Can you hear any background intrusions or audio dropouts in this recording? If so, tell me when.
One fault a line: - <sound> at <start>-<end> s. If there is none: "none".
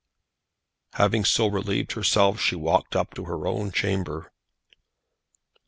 none